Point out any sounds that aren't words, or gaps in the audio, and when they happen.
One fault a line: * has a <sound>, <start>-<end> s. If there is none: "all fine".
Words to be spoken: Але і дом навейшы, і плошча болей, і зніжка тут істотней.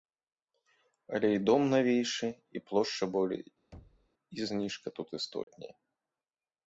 * has a thud, 3.7-4.1 s
* has a dropout, 5.4-5.5 s